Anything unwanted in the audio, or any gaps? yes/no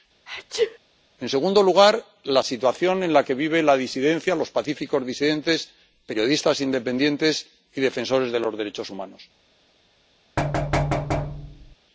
yes